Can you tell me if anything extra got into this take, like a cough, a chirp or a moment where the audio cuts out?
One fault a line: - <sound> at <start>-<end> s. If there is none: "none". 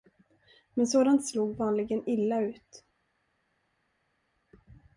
none